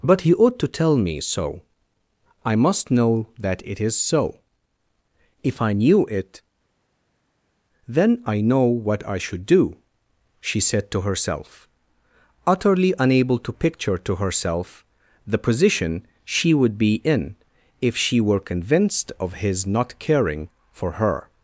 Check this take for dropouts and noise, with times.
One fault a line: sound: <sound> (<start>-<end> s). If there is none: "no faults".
no faults